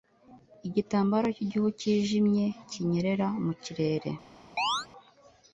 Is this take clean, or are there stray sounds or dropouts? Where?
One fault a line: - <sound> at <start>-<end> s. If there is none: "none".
- chirp at 4.6-4.9 s